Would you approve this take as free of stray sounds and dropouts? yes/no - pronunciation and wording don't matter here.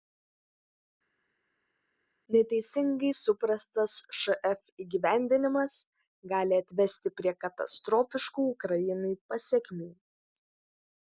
yes